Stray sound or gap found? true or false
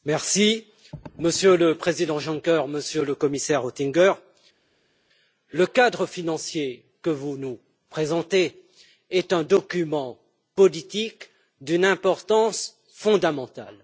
false